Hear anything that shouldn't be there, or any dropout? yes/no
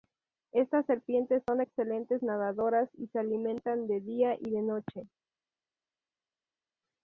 no